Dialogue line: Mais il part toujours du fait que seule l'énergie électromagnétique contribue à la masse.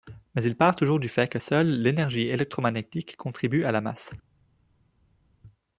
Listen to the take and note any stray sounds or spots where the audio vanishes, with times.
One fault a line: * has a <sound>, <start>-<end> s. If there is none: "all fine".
all fine